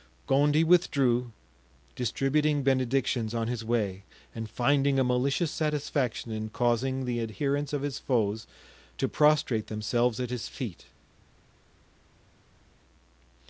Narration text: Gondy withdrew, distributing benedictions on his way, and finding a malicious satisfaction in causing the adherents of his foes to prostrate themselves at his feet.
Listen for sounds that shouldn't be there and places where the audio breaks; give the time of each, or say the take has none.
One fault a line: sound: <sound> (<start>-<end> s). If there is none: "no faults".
no faults